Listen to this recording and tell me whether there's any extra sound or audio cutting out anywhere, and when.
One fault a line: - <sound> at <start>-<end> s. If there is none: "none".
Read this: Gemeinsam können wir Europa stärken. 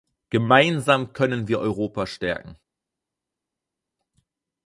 none